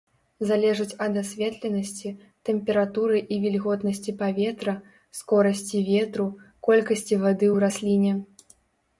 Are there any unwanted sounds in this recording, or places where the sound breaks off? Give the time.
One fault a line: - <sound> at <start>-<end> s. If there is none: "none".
none